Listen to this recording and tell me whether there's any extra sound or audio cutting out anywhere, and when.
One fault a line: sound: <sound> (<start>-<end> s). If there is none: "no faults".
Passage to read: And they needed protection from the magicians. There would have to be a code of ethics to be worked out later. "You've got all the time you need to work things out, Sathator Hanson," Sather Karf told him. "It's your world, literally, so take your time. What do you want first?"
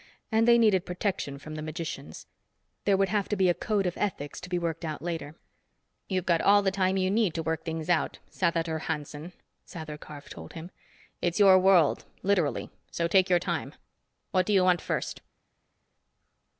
no faults